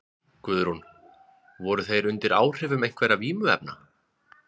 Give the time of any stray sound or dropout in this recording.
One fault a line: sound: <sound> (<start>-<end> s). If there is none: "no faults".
no faults